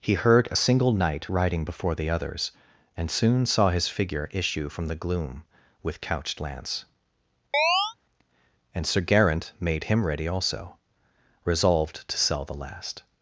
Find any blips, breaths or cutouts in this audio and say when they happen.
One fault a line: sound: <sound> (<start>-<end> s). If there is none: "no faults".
sound: chirp (7.5-7.9 s)